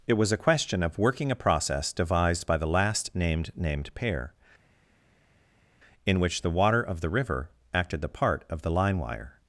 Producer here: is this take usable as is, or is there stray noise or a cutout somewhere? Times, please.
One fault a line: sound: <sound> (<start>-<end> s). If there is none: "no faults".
no faults